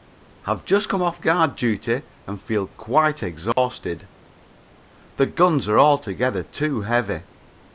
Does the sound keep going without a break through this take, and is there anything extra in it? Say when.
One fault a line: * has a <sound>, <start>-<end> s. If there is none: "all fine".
* has a dropout, 3.5-3.6 s